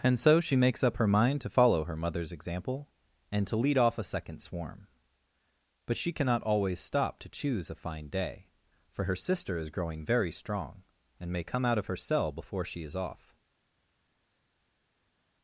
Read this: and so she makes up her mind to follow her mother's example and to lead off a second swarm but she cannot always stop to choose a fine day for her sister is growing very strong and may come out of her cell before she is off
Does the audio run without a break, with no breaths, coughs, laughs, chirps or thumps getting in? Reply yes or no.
yes